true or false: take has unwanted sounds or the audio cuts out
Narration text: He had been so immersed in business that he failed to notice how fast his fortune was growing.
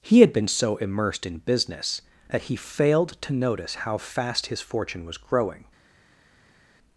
false